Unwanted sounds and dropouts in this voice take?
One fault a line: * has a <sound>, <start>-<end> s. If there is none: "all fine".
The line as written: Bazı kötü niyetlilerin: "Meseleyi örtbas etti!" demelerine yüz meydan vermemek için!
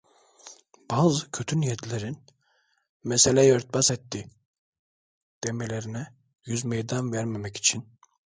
all fine